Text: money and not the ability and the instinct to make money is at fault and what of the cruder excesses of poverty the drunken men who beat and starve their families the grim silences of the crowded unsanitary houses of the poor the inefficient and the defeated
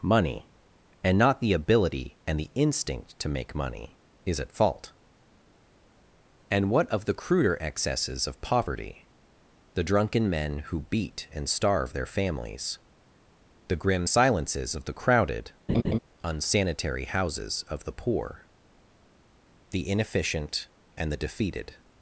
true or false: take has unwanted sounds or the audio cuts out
true